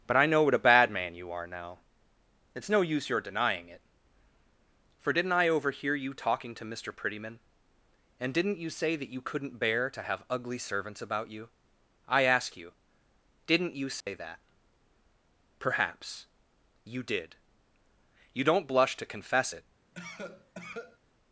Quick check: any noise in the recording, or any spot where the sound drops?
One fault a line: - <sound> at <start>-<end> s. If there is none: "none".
- dropout at 14.0-14.1 s
- cough at 19.9-21.0 s